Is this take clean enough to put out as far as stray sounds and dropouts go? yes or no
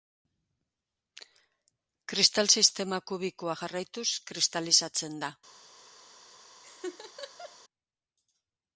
no